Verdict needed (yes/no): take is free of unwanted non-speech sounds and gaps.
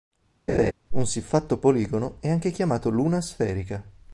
no